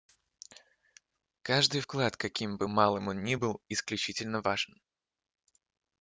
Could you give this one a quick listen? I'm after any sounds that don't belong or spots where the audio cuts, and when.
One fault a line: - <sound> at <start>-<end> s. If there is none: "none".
none